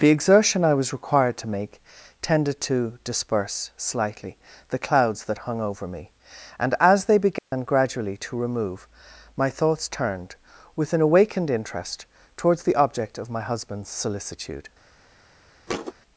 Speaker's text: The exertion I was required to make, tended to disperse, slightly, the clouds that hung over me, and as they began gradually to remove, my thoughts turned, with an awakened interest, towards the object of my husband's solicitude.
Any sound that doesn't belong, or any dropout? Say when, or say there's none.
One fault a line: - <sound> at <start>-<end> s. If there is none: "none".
- dropout at 7.4-7.5 s
- thud at 15.7-15.9 s